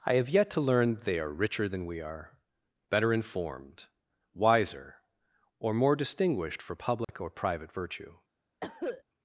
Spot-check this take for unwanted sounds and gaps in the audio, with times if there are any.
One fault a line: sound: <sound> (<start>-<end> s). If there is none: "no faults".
sound: dropout (7.0-7.1 s)
sound: cough (8.6-9.0 s)